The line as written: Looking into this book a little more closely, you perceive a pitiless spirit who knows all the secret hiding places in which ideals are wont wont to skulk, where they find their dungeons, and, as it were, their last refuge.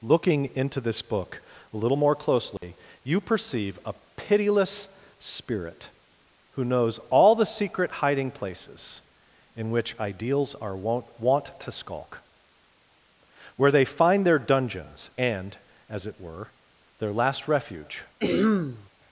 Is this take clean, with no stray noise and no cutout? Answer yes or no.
no